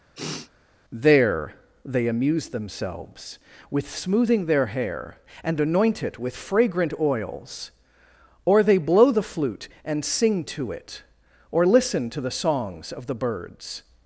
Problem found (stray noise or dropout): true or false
true